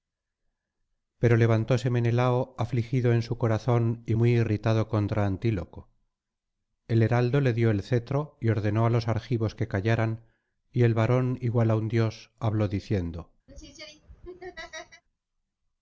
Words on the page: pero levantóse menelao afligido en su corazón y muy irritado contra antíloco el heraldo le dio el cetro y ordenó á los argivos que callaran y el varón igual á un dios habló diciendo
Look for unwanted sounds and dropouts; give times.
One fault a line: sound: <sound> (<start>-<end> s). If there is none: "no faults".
sound: laugh (13.5-15.0 s)